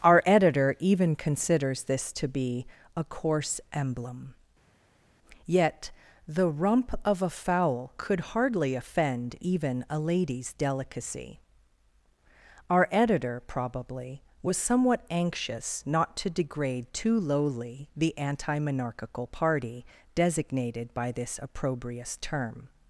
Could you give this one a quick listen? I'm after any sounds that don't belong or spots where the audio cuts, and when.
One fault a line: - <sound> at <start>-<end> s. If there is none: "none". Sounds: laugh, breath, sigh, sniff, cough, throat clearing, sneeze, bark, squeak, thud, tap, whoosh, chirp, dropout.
none